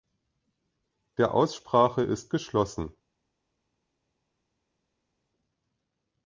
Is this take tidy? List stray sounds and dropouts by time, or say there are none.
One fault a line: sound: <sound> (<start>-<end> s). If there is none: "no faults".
no faults